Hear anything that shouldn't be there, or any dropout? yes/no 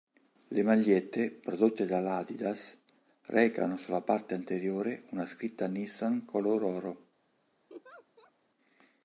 yes